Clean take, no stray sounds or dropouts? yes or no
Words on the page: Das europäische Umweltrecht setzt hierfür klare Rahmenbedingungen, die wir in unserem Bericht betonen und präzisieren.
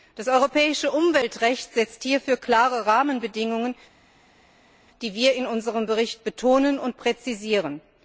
yes